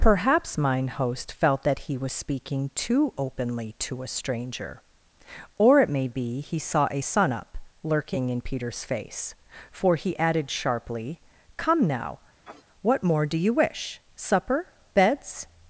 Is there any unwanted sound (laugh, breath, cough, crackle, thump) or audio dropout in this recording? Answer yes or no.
yes